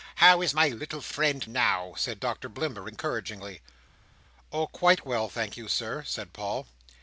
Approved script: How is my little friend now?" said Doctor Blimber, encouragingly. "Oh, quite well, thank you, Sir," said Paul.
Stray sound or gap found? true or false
false